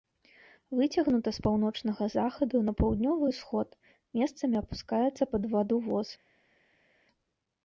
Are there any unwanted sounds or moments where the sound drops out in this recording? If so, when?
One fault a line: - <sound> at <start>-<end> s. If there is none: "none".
none